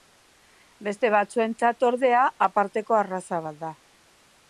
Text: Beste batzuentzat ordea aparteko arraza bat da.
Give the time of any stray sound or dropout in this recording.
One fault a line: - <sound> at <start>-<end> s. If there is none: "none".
none